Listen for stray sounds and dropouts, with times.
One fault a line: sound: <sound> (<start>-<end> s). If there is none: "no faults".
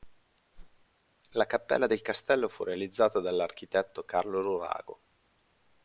sound: whoosh (0.5-0.9 s)